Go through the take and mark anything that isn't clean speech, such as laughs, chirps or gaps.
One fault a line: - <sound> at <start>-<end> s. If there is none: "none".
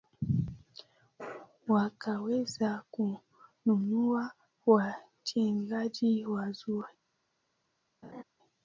- laugh at 8.0-8.2 s